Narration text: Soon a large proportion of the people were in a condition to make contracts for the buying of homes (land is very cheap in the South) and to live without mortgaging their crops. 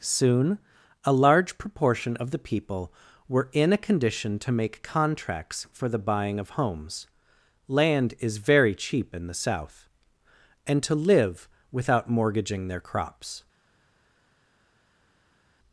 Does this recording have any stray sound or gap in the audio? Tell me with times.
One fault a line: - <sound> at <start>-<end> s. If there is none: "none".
none